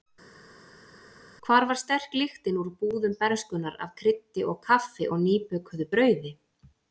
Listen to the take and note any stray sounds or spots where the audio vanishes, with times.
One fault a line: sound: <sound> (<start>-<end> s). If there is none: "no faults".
no faults